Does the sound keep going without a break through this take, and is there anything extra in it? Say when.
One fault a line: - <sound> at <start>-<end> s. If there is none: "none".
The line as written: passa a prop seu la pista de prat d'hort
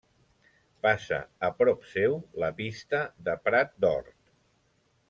none